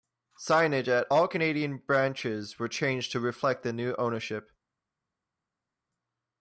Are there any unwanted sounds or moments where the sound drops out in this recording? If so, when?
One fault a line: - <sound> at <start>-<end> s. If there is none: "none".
none